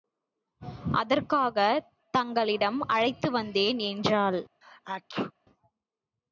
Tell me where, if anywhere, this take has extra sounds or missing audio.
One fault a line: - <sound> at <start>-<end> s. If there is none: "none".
- sneeze at 4.6-5.3 s